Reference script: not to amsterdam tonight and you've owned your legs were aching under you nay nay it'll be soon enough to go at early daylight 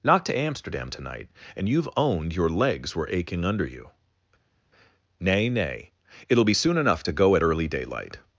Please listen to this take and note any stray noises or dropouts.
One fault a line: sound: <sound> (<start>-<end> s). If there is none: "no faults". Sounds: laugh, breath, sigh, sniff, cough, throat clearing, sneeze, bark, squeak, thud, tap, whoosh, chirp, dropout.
no faults